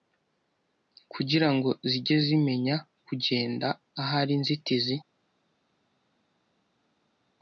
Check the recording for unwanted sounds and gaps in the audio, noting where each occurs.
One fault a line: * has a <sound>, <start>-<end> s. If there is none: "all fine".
all fine